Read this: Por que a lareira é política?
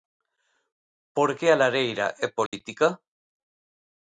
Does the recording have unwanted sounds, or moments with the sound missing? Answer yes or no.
yes